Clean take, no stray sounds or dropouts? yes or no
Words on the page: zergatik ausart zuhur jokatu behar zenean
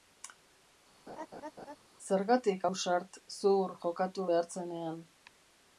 no